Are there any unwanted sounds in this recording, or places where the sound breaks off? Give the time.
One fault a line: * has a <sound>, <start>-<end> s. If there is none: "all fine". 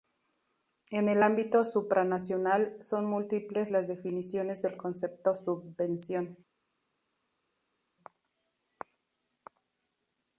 all fine